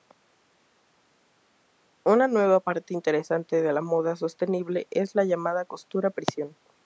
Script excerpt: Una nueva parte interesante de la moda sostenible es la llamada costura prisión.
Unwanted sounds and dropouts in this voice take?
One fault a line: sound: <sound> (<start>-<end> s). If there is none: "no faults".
no faults